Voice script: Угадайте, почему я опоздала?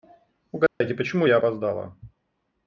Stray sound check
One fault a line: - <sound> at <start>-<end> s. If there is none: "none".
- dropout at 0.7-0.8 s